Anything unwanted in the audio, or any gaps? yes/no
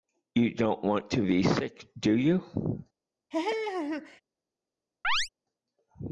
yes